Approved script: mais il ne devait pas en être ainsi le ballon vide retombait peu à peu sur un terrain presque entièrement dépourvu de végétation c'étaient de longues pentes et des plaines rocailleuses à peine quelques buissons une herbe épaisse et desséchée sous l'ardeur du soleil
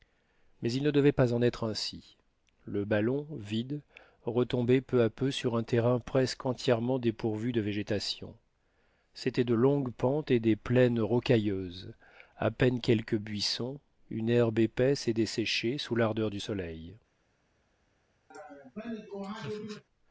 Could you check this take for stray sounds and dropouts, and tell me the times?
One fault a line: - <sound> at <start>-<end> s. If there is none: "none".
- laugh at 18.3-19.8 s